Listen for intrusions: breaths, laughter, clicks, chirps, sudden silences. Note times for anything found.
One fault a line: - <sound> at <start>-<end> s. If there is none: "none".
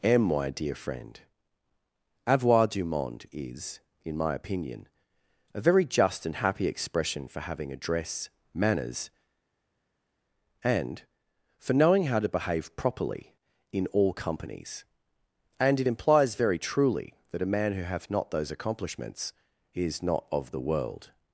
none